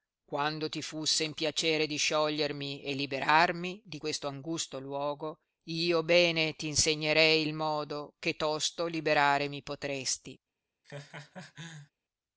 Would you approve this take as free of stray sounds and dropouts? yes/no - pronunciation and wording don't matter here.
no